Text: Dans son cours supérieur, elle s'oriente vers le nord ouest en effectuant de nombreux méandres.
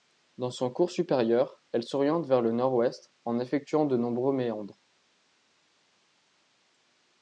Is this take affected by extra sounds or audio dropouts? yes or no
no